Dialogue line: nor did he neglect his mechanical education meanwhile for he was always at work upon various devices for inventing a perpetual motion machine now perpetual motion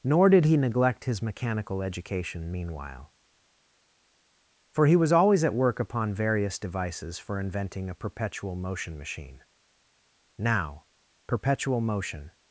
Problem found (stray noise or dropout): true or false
false